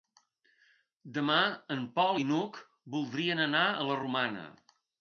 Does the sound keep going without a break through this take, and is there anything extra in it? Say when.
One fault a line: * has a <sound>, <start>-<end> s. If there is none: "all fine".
all fine